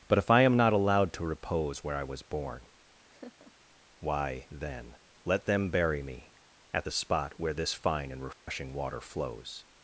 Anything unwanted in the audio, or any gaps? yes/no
yes